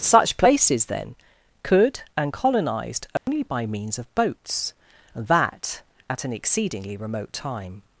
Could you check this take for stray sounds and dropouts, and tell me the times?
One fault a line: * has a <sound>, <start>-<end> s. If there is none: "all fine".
* has a dropout, 3.2-3.3 s